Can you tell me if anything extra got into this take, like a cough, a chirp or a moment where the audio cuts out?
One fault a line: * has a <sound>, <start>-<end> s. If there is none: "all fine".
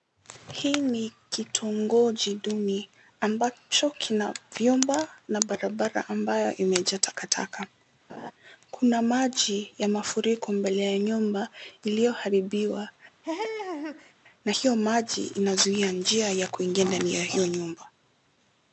* has a laugh, 8.1-8.3 s
* has a laugh, 13.2-14.1 s